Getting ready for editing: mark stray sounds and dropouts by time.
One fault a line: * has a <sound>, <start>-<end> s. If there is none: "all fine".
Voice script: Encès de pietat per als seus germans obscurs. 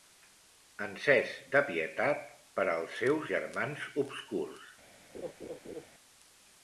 * has a laugh, 5.1-5.9 s